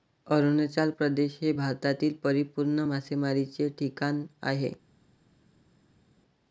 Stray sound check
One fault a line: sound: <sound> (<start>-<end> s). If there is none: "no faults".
no faults